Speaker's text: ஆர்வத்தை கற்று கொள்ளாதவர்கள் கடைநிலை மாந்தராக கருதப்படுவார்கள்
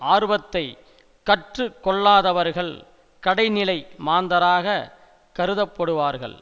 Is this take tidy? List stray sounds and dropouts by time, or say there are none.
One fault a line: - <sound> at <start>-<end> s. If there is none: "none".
none